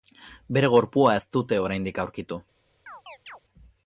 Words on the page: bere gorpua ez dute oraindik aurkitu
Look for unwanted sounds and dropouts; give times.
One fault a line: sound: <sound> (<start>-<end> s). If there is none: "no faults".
sound: chirp (2.9-3.4 s)